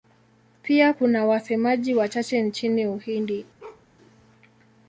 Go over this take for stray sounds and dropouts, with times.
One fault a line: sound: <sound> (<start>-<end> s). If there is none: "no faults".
sound: bark (3.6-3.9 s)